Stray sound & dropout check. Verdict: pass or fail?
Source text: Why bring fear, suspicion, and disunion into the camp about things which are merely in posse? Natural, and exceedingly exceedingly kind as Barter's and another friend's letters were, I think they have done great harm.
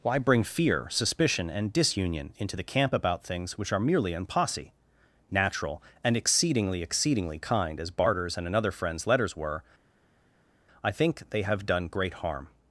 pass